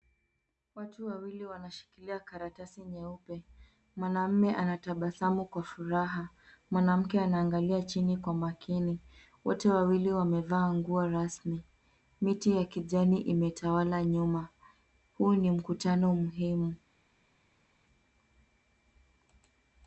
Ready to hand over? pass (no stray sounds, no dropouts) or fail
pass